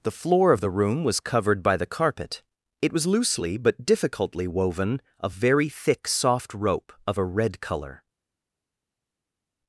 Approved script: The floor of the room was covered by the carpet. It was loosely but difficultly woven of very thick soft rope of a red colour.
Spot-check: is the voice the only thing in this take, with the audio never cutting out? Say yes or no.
yes